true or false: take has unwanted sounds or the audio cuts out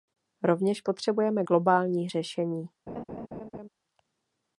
true